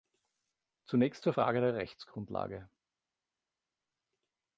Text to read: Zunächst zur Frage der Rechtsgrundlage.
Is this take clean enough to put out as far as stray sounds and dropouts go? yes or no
yes